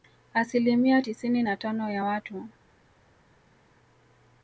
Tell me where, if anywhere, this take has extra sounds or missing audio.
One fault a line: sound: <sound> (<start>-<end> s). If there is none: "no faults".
no faults